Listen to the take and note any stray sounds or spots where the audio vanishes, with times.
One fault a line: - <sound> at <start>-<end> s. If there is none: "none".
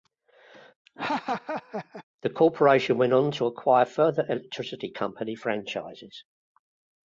- laugh at 0.9-2.0 s